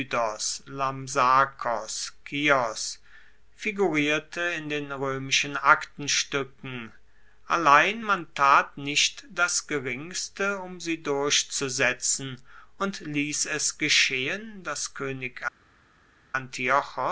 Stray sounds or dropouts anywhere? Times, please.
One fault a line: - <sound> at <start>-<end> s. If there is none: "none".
none